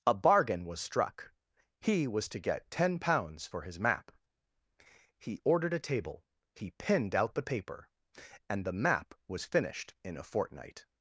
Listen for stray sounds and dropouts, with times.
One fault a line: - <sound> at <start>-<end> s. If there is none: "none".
none